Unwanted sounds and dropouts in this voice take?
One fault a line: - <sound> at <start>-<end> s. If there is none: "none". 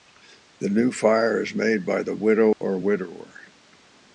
- dropout at 2.5-2.6 s